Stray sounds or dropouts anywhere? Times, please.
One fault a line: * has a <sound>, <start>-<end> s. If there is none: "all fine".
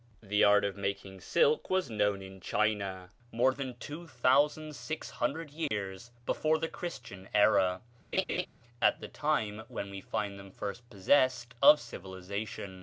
* has a dropout, 5.7-5.7 s
* has a laugh, 8.1-8.5 s